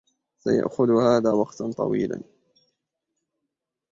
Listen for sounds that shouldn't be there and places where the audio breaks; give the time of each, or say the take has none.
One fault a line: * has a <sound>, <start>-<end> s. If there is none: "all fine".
all fine